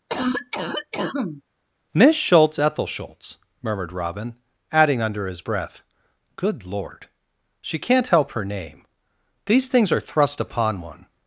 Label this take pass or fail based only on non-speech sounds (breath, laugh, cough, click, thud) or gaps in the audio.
fail